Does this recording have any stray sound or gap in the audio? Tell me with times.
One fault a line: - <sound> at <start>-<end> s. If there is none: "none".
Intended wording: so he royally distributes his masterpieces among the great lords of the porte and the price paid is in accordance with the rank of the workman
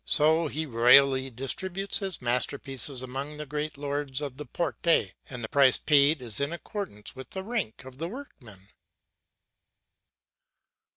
none